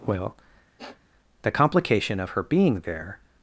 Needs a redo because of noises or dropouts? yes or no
yes